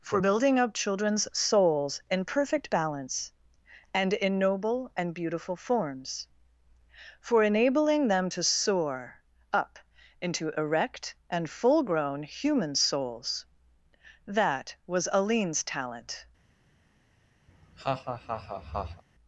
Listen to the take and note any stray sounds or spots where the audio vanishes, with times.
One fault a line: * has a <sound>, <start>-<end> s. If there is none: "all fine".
* has a laugh, 17.5-19.0 s